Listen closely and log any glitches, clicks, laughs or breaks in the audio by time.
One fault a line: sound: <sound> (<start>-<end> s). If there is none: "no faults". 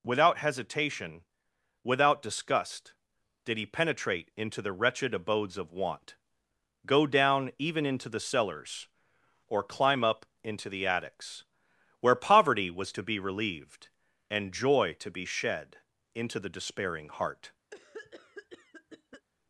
sound: cough (17.7-19.3 s)